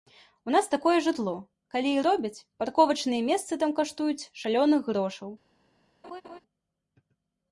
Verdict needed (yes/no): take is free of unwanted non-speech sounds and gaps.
no